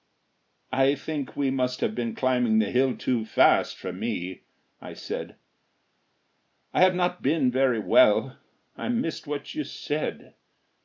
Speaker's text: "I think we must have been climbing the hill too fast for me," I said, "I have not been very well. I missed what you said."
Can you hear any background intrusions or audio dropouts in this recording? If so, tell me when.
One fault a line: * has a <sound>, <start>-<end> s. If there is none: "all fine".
all fine